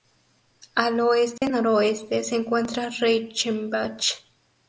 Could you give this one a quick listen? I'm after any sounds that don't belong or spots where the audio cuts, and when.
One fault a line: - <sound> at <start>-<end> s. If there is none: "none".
- dropout at 1.4-1.4 s